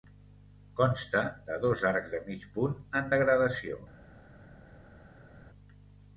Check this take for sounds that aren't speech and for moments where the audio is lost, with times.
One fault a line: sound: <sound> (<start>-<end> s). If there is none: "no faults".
no faults